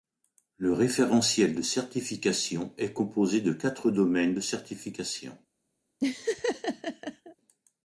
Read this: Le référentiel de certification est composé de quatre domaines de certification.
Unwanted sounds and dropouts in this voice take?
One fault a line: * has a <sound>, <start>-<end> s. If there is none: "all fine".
* has a laugh, 6.0-7.4 s